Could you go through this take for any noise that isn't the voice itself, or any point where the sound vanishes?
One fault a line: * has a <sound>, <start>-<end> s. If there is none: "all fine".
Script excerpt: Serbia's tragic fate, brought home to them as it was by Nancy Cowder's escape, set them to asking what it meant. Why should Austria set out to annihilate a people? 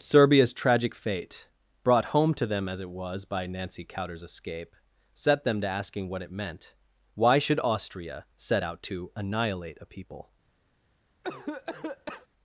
* has a cough, 11.2-12.3 s